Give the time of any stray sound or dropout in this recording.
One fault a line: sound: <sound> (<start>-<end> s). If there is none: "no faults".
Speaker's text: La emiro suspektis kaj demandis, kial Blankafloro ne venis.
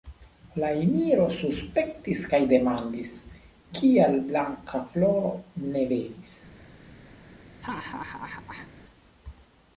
sound: laugh (7.6-8.7 s)